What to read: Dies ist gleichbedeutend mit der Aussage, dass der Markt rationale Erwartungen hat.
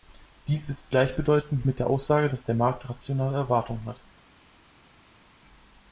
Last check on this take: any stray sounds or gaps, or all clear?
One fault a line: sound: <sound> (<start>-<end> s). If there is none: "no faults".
no faults